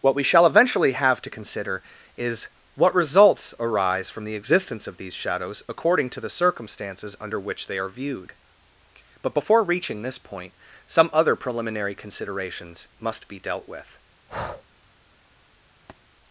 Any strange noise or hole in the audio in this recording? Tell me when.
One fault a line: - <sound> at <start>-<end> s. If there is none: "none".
- breath at 14.3-14.6 s
- thud at 15.9-16.0 s